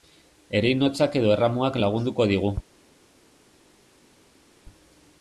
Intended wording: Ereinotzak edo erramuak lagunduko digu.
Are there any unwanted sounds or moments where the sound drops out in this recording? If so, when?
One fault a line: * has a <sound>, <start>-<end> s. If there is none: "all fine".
all fine